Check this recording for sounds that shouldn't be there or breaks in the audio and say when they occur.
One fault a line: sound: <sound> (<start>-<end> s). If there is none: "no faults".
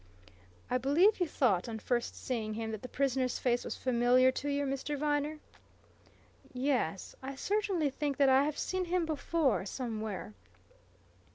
no faults